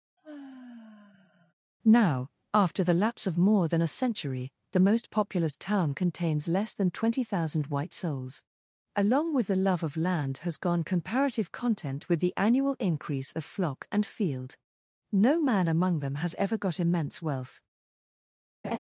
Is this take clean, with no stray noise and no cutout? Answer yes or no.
no